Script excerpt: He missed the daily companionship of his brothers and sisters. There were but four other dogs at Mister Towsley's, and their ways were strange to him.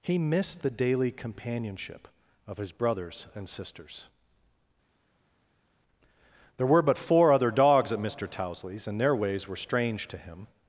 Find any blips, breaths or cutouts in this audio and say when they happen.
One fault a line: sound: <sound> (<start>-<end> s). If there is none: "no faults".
no faults